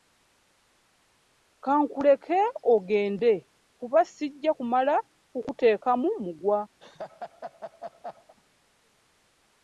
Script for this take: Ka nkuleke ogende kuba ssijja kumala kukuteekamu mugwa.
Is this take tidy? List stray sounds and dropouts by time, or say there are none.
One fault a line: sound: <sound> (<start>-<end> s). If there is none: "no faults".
sound: laugh (6.8-8.3 s)